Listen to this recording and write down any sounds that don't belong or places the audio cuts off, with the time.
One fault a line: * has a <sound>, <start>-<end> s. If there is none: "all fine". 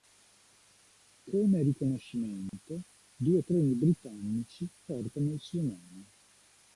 * has a dropout, 2.5-2.5 s